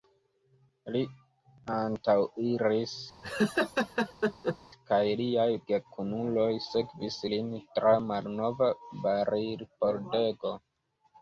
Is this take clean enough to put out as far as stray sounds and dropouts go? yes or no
no